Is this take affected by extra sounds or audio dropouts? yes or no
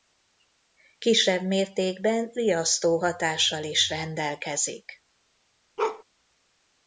yes